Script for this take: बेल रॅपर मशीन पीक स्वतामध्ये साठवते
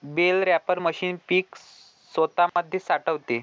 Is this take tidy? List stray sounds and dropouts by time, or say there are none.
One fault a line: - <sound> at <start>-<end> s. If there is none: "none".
- dropout at 2.5-2.6 s